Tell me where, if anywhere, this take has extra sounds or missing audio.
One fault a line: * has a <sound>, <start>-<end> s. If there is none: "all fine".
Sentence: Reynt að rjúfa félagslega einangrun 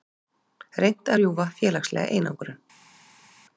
all fine